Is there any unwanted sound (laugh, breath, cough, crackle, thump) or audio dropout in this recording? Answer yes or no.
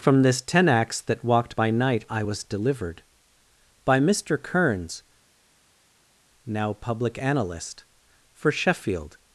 no